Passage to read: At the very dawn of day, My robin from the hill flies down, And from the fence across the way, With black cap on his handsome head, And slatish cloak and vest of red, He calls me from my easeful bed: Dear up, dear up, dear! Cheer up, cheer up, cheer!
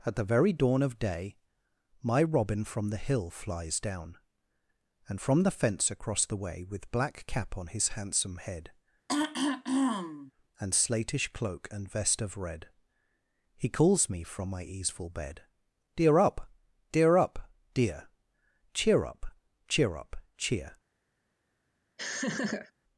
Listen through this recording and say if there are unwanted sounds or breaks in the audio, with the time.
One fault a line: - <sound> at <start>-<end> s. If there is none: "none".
- throat clearing at 9.1-10.3 s
- laugh at 22.0-22.7 s